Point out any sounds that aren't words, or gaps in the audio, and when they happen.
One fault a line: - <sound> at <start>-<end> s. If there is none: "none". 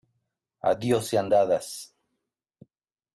none